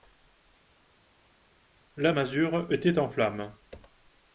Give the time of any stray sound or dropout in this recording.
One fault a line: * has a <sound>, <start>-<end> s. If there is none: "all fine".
all fine